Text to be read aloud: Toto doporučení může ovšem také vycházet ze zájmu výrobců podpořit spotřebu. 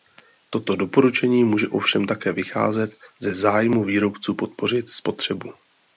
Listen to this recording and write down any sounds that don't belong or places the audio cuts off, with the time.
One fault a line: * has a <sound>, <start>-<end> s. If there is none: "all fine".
all fine